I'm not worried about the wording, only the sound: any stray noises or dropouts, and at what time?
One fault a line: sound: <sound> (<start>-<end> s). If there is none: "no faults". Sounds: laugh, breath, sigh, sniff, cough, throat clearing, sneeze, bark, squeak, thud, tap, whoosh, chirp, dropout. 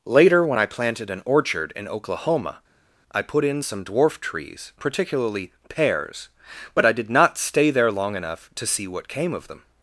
no faults